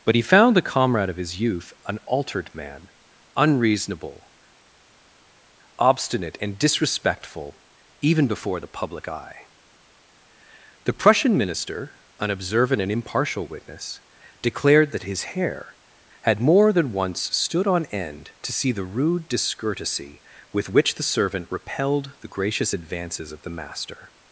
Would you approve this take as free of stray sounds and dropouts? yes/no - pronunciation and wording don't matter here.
yes